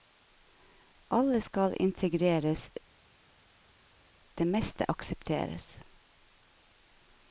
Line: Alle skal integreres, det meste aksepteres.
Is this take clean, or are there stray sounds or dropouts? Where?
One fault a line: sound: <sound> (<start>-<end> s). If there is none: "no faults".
no faults